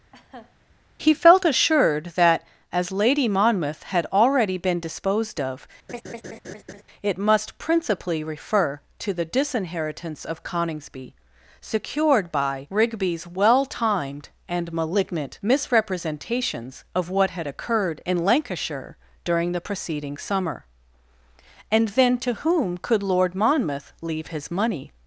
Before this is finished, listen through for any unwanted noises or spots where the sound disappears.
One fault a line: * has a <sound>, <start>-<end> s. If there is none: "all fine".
* has a laugh, 0.1-0.6 s
* has a laugh, 5.9-6.8 s